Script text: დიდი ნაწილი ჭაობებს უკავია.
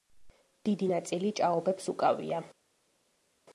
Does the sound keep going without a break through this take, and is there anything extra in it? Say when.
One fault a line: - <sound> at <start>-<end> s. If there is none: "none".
none